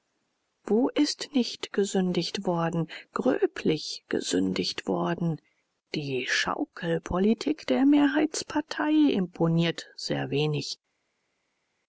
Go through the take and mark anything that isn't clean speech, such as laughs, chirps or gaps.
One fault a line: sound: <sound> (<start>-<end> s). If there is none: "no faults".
no faults